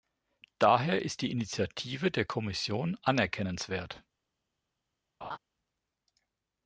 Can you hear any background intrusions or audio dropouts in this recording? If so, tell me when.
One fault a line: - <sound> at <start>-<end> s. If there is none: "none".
- laugh at 5.2-5.4 s